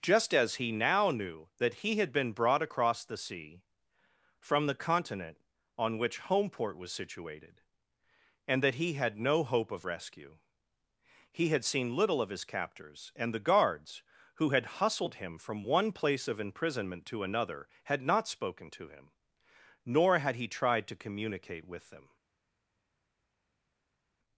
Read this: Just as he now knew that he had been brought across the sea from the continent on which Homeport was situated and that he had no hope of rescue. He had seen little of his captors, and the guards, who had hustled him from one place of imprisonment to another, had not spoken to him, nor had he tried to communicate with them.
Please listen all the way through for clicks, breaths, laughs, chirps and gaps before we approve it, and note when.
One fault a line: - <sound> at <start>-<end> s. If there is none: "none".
none